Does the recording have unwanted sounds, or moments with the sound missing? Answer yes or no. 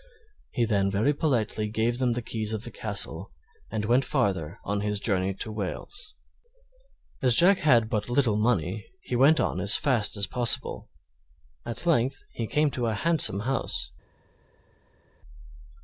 no